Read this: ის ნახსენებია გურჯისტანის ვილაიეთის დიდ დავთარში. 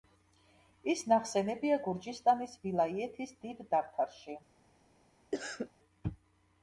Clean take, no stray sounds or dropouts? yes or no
no